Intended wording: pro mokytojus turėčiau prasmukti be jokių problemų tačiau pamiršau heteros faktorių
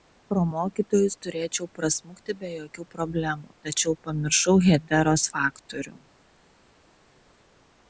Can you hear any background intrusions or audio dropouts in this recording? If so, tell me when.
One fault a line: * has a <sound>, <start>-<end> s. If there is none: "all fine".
all fine